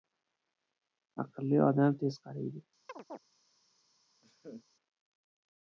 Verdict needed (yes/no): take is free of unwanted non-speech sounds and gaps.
no